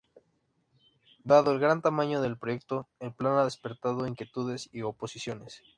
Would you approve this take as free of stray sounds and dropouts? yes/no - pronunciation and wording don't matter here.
yes